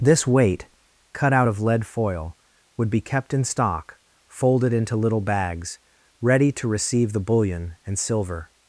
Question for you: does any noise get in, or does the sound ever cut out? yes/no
no